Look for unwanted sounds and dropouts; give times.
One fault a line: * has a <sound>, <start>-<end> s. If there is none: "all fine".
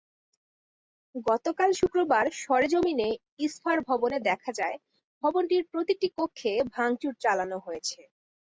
all fine